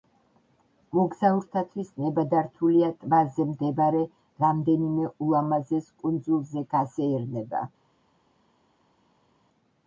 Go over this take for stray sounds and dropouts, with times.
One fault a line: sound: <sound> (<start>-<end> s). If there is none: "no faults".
no faults